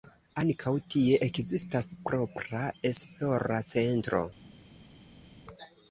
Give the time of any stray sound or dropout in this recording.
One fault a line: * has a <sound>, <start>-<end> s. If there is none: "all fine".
all fine